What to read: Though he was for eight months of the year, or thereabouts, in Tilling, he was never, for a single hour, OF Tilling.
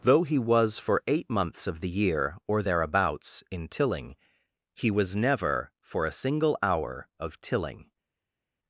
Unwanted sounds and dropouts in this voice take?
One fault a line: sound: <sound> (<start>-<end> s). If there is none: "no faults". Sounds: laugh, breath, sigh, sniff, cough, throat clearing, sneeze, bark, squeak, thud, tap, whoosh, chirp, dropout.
no faults